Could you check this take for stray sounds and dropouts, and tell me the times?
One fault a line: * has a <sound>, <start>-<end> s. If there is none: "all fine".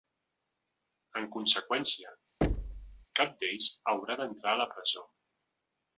* has a thud, 2.4-3.1 s